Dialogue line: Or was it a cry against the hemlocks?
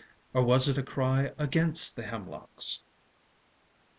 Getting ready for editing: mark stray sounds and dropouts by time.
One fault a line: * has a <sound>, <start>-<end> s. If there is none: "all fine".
all fine